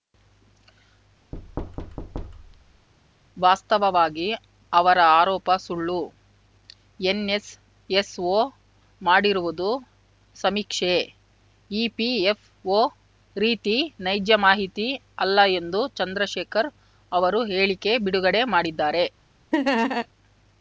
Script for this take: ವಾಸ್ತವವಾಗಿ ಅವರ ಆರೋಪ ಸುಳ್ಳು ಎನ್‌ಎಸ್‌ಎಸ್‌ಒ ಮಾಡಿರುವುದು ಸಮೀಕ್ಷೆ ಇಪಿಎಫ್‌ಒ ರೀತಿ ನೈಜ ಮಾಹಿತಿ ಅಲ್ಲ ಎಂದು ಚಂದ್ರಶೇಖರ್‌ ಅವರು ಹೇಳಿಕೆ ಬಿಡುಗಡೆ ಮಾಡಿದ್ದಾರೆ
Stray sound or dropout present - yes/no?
yes